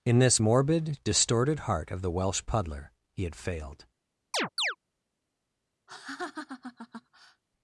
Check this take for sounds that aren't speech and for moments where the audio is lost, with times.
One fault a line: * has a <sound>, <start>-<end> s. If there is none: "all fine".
* has a chirp, 4.3-4.8 s
* has a laugh, 5.9-7.4 s